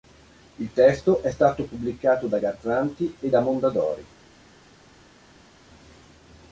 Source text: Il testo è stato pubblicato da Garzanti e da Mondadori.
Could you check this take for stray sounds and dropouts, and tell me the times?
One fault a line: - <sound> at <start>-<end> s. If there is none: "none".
none